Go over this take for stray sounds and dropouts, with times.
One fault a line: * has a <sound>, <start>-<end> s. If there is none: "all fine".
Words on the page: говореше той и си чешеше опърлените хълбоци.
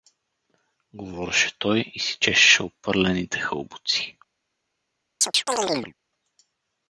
* has a chirp, 5.2-5.9 s